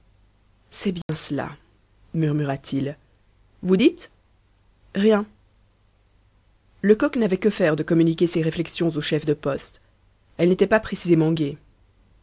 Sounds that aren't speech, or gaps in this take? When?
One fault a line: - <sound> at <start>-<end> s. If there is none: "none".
- dropout at 1.0-1.1 s